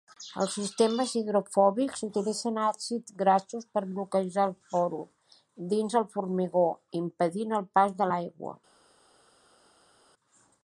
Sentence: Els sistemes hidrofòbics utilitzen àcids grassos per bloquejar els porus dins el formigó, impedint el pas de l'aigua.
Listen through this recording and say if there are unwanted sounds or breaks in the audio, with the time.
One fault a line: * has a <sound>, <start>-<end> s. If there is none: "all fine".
all fine